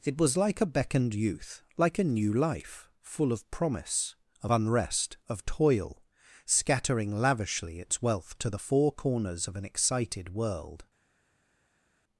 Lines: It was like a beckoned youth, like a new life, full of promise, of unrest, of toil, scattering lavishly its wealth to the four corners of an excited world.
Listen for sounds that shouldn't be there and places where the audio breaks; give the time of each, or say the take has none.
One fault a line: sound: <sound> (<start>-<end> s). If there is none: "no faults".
no faults